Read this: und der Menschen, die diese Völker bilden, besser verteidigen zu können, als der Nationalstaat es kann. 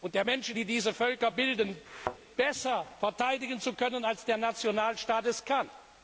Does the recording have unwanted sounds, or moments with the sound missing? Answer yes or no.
yes